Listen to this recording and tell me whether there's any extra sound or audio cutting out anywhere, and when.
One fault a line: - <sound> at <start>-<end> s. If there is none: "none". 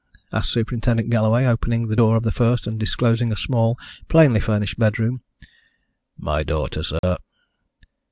- dropout at 7.0-7.0 s